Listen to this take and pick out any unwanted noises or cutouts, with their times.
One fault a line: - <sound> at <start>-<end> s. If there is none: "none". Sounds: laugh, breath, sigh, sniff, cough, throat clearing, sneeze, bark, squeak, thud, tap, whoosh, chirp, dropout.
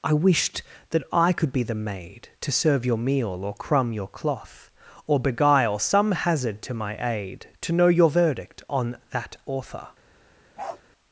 - bark at 10.6-10.8 s